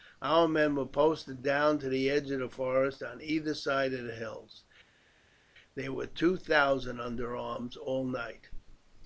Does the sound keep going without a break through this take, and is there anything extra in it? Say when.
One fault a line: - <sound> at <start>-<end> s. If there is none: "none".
none